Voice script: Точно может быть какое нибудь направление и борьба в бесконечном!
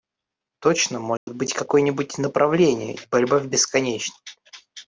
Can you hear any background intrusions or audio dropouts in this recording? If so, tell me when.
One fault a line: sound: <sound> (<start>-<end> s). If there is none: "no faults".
sound: dropout (1.2-1.3 s)